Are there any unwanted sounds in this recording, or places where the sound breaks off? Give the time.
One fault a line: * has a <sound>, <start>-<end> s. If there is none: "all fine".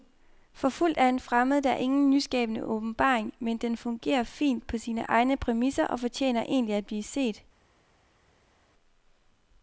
all fine